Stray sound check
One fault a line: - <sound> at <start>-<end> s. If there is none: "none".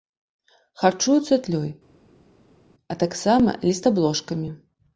none